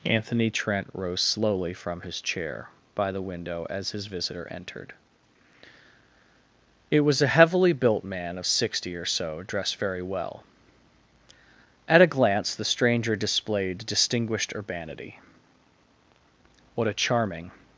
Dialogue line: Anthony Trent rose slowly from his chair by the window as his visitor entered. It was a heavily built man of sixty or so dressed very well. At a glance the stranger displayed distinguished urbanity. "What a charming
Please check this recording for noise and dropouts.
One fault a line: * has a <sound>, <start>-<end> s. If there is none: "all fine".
all fine